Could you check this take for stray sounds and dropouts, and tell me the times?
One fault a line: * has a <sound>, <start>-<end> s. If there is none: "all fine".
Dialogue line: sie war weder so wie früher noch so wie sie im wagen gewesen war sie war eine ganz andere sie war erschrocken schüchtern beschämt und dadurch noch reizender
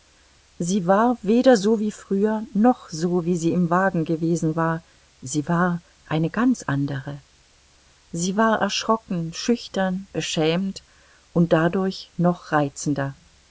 all fine